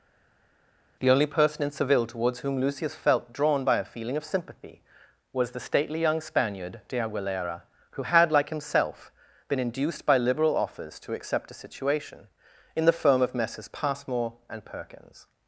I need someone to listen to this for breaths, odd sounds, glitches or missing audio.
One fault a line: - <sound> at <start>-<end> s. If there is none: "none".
none